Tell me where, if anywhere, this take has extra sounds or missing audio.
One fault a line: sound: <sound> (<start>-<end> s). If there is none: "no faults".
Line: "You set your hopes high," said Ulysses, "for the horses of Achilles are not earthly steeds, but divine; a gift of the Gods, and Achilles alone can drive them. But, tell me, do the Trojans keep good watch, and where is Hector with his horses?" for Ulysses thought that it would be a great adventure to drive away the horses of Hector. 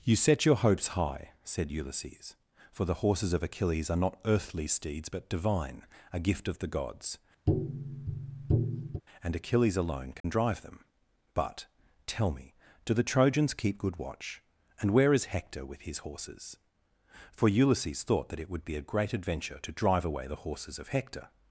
sound: tap (7.5-9.0 s)
sound: dropout (10.2-10.2 s)